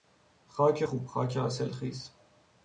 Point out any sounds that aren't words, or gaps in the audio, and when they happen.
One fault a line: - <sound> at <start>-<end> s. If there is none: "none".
none